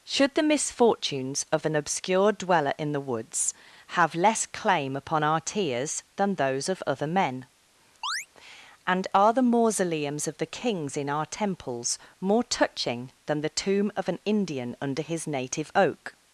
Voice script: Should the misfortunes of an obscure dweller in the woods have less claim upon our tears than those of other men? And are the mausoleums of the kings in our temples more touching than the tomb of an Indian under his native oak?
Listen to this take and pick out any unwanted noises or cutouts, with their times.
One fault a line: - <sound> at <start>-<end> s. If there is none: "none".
- chirp at 8.0-8.3 s